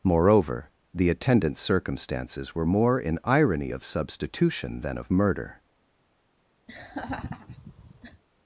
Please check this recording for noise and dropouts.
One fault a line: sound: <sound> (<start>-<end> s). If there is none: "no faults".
sound: laugh (6.7-8.2 s)